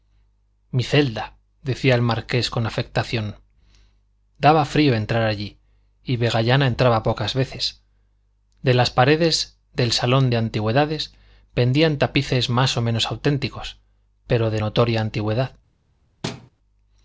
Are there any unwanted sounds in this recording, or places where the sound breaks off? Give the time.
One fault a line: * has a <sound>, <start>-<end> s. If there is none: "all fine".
* has a thud, 16.2-16.5 s